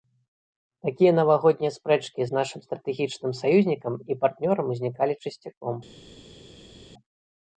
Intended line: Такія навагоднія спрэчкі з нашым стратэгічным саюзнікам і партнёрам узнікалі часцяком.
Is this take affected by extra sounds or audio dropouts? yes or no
no